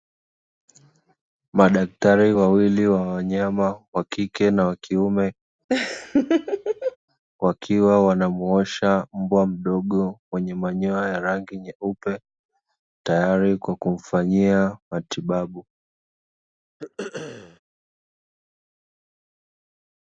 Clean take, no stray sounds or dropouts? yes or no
no